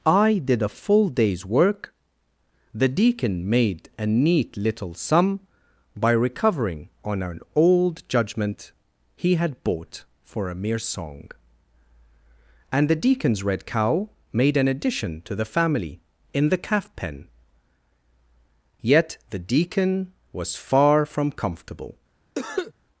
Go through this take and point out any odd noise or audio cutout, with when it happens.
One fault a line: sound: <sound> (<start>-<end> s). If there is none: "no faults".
sound: cough (22.4-22.7 s)